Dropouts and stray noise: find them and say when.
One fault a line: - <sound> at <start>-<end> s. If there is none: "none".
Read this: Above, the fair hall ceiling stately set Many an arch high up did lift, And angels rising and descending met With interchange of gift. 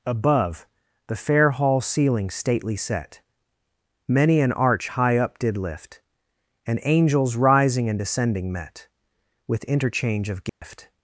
- dropout at 10.5-10.6 s